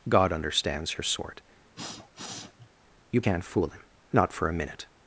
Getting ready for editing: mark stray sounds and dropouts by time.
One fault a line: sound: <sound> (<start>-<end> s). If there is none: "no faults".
sound: sniff (1.8-2.7 s)